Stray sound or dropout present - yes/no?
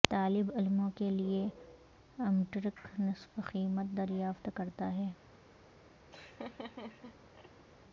yes